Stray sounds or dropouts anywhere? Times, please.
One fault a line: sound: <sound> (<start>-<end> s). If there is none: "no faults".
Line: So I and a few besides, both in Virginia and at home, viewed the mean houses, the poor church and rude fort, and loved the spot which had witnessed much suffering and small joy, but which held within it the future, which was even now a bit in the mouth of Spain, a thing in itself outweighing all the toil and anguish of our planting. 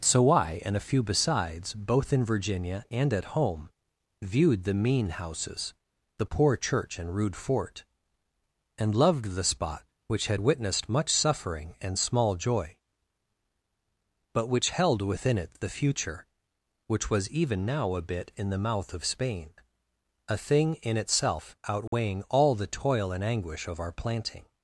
sound: dropout (21.9-21.9 s)